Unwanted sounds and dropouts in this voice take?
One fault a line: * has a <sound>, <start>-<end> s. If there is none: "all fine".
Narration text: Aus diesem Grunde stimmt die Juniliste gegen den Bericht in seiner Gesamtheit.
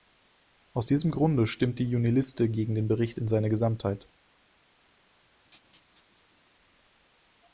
* has a laugh, 5.4-6.5 s